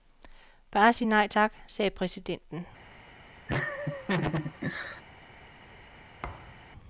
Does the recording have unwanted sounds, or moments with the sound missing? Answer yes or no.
yes